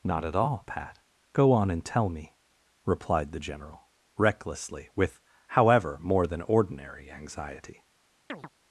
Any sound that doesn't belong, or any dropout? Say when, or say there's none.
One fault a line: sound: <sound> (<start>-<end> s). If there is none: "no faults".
sound: chirp (8.3-8.5 s)